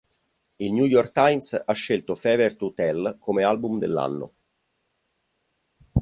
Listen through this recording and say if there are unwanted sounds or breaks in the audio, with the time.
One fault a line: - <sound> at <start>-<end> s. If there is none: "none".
none